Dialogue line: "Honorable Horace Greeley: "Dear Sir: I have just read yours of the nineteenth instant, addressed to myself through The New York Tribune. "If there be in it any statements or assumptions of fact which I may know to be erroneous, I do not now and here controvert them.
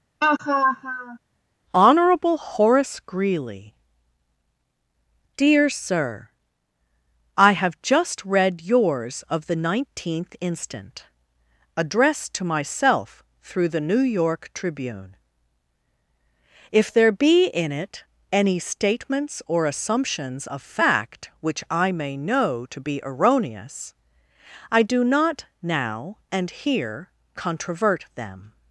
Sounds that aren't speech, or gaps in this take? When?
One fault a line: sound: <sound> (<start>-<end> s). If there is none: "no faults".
sound: laugh (0.2-1.2 s)